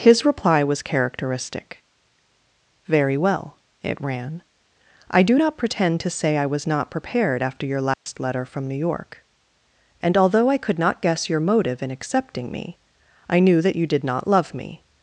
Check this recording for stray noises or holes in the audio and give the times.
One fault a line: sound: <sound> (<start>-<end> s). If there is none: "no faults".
sound: dropout (7.9-8.1 s)